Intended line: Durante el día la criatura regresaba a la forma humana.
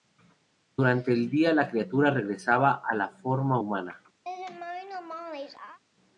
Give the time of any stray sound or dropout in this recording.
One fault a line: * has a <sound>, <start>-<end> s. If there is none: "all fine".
* has a laugh, 4.2-5.8 s